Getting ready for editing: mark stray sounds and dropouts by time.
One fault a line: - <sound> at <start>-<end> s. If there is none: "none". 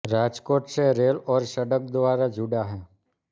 none